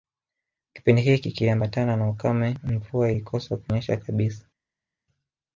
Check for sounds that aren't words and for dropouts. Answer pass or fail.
pass